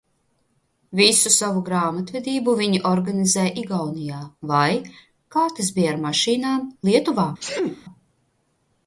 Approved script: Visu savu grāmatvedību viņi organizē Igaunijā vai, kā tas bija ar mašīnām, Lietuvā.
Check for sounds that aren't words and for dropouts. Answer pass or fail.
fail